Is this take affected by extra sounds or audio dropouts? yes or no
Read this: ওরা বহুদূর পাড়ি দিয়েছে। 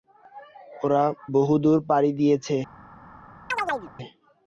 yes